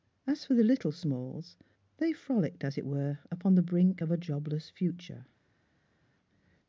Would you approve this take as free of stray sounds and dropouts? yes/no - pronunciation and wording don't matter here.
yes